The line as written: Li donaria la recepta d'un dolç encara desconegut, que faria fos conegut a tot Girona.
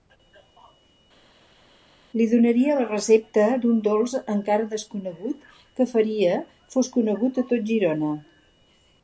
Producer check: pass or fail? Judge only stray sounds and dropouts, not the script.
pass